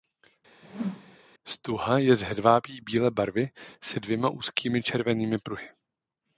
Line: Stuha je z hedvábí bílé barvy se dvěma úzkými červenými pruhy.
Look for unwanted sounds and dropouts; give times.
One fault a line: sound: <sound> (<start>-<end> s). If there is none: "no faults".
sound: whoosh (0.6-1.2 s)